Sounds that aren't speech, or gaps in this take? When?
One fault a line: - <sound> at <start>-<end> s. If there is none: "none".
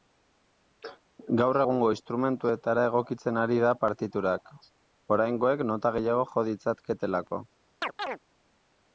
- chirp at 7.8-8.2 s